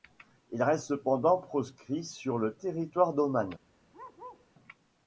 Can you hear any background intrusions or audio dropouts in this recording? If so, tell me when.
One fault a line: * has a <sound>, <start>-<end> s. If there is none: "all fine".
* has a bark, 3.9-4.5 s